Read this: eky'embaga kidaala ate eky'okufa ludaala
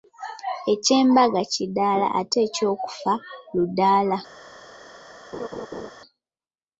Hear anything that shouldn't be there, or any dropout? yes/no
yes